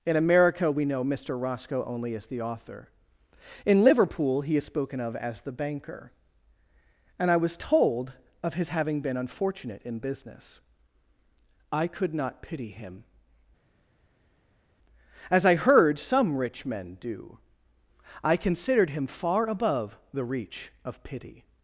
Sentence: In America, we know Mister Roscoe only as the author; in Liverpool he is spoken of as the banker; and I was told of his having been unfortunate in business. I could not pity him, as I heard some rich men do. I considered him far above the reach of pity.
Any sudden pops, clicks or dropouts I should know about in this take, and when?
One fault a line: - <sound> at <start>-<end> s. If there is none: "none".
none